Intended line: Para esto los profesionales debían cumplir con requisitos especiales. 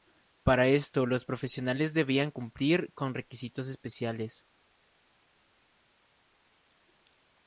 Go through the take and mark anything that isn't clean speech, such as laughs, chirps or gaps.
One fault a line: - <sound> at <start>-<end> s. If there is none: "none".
none